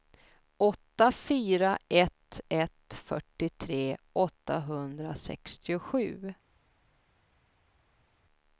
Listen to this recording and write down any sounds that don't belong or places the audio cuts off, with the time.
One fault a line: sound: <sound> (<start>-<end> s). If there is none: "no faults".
no faults